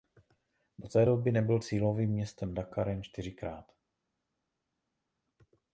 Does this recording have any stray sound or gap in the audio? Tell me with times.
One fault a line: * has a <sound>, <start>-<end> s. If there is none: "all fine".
all fine